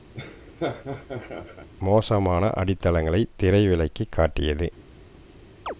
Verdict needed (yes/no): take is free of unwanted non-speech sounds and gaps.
no